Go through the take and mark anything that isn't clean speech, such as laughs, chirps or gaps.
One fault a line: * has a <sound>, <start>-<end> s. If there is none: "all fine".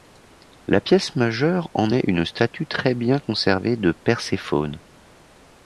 all fine